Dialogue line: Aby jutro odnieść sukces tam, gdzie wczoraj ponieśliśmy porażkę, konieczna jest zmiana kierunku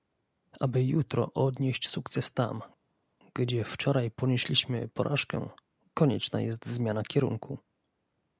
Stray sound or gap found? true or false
false